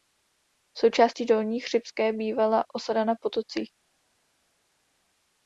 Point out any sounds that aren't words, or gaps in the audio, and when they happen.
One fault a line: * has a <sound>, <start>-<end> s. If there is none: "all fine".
all fine